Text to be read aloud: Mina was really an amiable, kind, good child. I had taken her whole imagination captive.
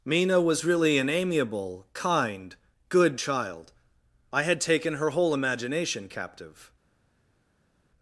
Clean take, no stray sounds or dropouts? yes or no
yes